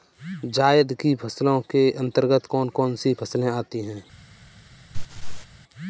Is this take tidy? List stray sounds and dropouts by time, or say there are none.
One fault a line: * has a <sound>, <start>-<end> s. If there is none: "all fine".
* has a laugh, 4.9-5.5 s